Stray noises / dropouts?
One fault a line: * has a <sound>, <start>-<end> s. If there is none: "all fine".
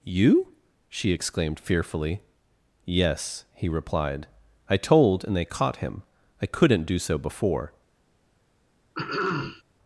* has a throat clearing, 8.9-9.6 s